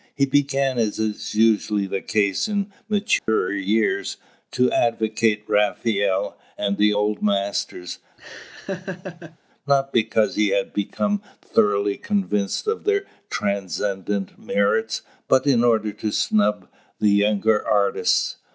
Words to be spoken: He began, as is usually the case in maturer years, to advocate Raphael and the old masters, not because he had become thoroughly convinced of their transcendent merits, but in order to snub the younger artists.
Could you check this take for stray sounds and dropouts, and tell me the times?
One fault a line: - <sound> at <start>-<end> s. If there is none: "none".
- dropout at 3.2-3.3 s
- laugh at 8.2-9.4 s